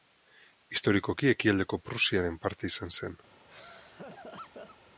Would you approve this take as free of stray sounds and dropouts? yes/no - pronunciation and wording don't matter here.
no